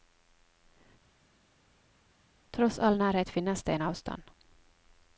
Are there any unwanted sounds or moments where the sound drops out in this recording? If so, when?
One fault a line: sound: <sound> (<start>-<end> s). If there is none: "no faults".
no faults